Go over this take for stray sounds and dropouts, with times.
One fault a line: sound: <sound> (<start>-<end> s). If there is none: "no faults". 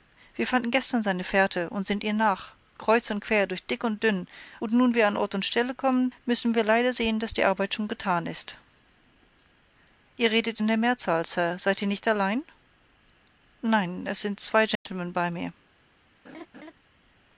sound: dropout (14.8-14.9 s)
sound: laugh (16.2-16.7 s)